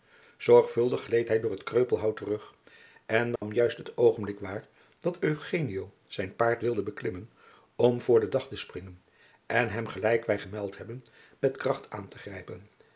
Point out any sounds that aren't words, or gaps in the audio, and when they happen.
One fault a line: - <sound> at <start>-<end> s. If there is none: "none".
- dropout at 3.4-3.4 s